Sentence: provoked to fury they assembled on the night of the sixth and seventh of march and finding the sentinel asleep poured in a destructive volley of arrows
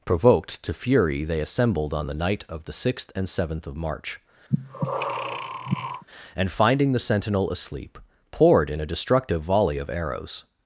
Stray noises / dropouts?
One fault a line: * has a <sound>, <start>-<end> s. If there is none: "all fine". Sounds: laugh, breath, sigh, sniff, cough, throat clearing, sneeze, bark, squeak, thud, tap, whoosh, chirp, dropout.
* has a breath, 4.5-6.0 s